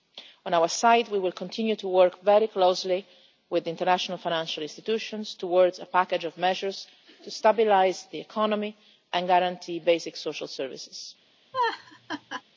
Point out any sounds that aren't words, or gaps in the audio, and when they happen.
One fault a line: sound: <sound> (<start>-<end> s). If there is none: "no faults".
sound: laugh (11.5-12.4 s)